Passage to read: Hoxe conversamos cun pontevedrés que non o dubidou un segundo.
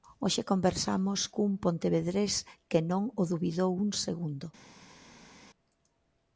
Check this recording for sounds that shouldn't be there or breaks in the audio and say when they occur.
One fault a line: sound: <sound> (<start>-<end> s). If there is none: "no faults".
no faults